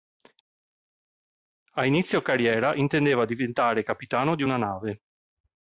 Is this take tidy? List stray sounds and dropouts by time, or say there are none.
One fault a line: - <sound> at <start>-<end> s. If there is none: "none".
none